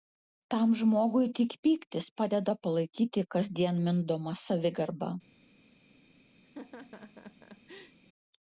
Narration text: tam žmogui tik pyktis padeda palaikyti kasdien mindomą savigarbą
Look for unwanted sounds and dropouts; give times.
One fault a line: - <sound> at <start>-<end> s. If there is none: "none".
- laugh at 6.4-8.0 s